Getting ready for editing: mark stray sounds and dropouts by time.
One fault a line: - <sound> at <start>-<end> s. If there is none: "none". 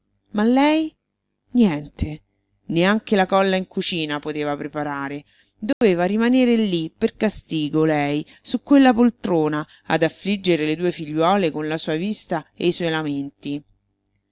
- dropout at 5.7-5.8 s